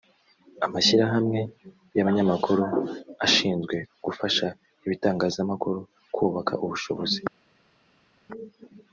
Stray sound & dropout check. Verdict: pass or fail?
pass